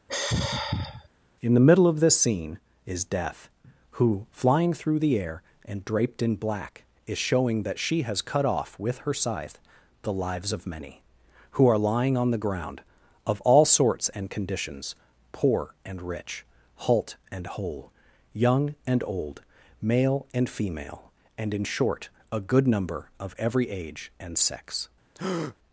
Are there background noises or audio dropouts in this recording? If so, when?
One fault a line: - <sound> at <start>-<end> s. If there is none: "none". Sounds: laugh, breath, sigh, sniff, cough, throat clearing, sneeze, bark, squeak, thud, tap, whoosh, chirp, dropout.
- sigh at 0.1-1.1 s
- breath at 25.1-25.6 s